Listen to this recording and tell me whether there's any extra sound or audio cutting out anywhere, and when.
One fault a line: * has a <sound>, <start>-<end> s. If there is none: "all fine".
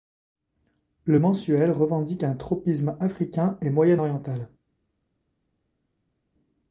all fine